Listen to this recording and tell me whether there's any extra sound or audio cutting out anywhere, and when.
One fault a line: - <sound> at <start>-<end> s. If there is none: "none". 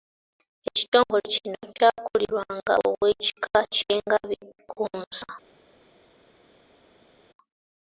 none